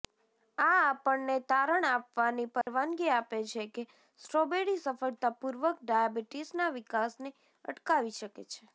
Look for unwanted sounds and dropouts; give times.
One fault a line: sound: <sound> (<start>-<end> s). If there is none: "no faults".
sound: dropout (2.6-2.7 s)